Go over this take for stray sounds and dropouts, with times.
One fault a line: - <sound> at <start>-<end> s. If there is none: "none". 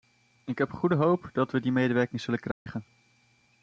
- dropout at 2.5-2.7 s